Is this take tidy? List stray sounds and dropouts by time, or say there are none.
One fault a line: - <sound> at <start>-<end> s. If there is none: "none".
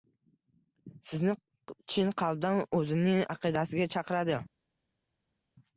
none